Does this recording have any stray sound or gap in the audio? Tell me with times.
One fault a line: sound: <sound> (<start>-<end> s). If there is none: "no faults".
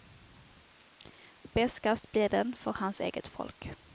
no faults